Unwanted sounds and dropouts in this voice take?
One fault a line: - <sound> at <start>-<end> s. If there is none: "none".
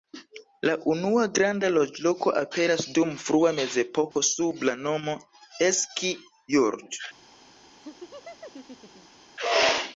- dropout at 4.1-4.2 s
- laugh at 7.8-9.2 s